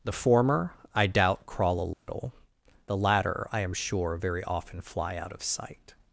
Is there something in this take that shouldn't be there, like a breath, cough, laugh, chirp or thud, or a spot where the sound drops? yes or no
yes